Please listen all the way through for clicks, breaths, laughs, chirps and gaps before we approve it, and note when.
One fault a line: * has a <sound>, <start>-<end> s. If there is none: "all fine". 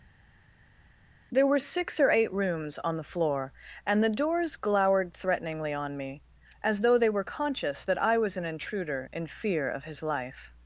all fine